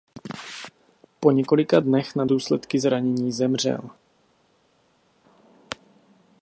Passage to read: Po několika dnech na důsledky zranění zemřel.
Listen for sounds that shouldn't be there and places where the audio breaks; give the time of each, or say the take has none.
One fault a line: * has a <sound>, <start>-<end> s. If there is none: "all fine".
all fine